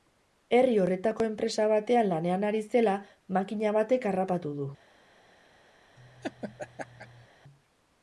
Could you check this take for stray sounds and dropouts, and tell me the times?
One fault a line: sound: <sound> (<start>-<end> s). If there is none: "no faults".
sound: laugh (6.0-7.3 s)